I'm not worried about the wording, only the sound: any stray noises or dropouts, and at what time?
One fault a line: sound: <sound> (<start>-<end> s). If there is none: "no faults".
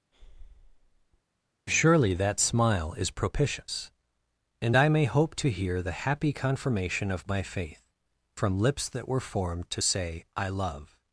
sound: breath (0.1-1.2 s)